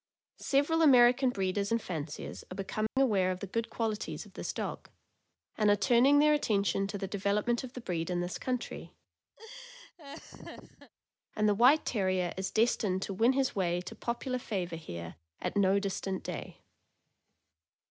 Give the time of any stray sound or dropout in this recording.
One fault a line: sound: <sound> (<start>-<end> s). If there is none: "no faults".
sound: dropout (2.9-3.0 s)
sound: laugh (9.4-10.9 s)